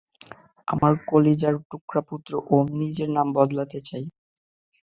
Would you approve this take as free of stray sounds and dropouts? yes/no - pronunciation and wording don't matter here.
no